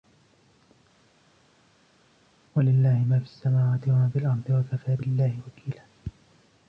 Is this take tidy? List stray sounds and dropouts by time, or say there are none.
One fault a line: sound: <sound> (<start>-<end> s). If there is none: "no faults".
no faults